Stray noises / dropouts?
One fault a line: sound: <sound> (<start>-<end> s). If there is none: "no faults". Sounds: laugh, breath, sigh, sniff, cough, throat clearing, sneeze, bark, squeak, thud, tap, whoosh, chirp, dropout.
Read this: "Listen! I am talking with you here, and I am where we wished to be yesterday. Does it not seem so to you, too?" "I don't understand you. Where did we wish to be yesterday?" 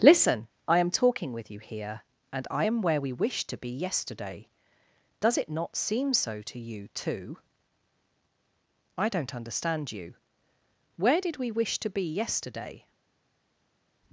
no faults